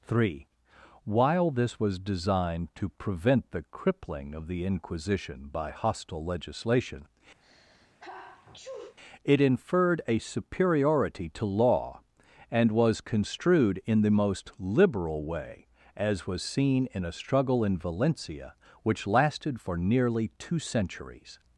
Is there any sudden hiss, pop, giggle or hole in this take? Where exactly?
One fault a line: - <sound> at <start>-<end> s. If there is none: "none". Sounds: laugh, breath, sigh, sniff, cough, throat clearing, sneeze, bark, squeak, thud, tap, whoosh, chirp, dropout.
- sneeze at 7.4-9.0 s